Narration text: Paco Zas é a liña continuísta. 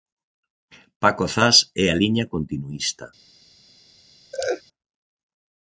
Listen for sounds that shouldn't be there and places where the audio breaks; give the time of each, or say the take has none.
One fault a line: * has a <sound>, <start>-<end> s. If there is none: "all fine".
* has a laugh, 4.3-4.6 s